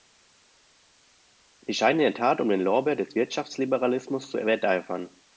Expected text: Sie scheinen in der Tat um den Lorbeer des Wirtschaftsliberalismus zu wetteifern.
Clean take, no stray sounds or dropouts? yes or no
yes